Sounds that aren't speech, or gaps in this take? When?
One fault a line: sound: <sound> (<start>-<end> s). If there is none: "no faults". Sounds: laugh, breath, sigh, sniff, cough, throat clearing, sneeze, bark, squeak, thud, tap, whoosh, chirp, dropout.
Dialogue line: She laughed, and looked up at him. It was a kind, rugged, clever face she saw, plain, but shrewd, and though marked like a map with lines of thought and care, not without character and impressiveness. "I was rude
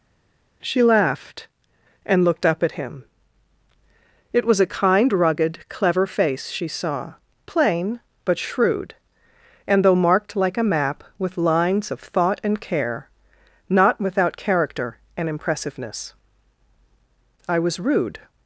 no faults